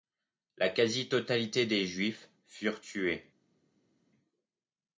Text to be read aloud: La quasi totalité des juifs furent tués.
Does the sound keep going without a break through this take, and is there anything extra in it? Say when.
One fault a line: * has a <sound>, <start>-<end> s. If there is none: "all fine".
all fine